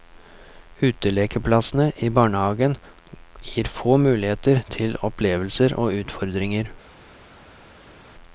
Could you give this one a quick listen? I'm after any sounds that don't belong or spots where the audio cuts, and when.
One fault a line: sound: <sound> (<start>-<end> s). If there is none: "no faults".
no faults